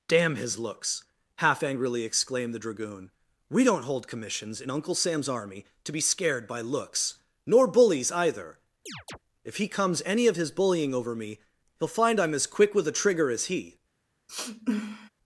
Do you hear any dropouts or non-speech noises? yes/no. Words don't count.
yes